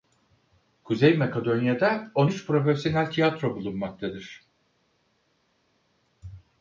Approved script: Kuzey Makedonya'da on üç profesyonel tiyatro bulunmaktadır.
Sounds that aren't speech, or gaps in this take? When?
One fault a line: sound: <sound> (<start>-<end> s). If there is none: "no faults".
no faults